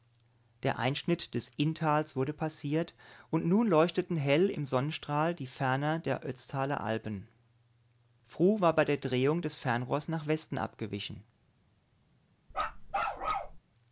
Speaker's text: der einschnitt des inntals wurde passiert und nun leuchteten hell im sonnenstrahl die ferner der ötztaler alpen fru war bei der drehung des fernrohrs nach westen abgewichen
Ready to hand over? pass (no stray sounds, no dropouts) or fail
fail